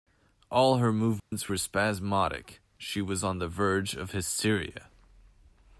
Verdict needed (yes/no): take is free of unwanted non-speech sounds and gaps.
no